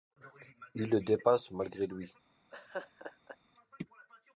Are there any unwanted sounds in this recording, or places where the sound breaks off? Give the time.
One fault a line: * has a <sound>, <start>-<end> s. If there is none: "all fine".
* has a laugh, 2.5-3.4 s